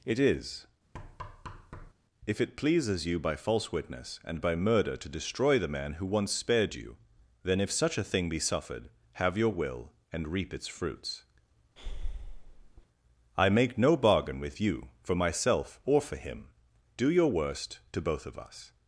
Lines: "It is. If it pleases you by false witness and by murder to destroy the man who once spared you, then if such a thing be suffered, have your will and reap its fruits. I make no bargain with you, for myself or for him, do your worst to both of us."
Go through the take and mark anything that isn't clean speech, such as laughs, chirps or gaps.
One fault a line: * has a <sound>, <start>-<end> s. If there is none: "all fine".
* has a thud, 0.9-1.9 s
* has a breath, 11.8-12.9 s